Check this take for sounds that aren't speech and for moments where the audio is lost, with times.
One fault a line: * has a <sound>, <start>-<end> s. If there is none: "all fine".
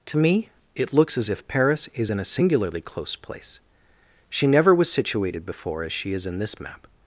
all fine